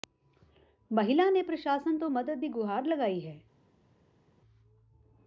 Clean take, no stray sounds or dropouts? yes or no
yes